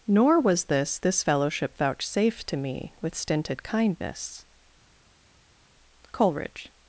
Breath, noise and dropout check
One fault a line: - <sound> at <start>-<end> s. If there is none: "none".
none